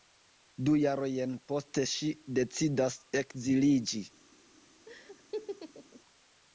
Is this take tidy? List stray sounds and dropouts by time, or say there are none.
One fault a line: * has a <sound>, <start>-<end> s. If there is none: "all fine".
* has a laugh, 4.9-6.0 s